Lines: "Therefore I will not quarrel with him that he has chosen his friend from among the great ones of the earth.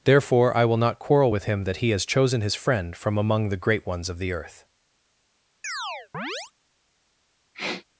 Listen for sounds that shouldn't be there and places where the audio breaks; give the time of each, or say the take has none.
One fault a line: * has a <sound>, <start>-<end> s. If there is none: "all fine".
* has a chirp, 5.6-6.5 s
* has a sniff, 7.5-7.8 s